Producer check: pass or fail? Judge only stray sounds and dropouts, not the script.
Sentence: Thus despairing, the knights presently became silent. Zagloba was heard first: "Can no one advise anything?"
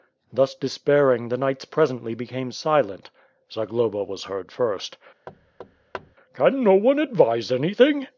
fail